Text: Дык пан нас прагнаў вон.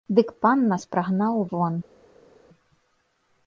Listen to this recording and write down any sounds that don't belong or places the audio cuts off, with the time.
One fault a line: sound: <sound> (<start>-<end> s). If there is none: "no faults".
no faults